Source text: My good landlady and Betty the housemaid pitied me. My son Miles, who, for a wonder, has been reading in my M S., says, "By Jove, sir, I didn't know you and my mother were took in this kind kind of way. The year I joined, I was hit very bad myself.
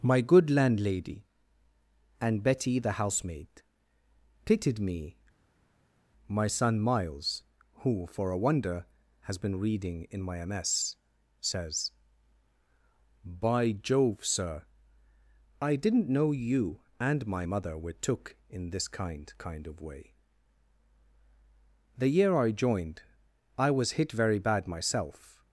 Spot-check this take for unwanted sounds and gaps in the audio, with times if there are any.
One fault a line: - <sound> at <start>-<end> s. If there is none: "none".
none